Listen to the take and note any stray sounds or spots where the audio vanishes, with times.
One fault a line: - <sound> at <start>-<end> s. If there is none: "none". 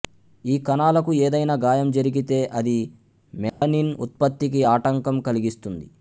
- dropout at 3.5-3.6 s